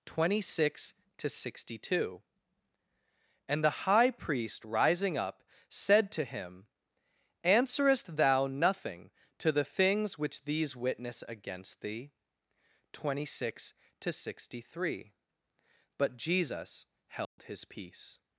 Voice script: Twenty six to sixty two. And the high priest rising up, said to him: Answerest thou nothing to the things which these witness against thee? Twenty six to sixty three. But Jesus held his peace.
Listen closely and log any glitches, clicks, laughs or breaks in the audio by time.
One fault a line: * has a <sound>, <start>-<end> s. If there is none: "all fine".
* has a dropout, 17.2-17.4 s